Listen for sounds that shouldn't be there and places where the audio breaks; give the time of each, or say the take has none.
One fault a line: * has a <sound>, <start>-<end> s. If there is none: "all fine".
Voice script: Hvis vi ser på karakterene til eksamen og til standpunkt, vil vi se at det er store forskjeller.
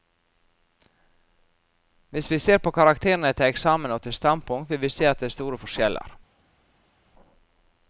all fine